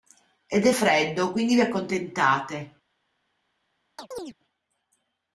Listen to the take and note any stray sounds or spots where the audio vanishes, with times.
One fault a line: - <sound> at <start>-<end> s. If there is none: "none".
- chirp at 4.0-4.3 s